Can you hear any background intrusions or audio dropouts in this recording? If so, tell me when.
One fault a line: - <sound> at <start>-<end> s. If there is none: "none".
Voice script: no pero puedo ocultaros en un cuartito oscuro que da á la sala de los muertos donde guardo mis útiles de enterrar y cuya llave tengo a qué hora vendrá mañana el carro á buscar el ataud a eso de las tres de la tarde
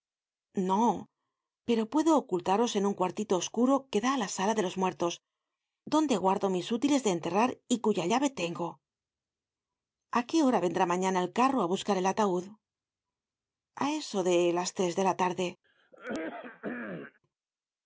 - throat clearing at 15.6-17.2 s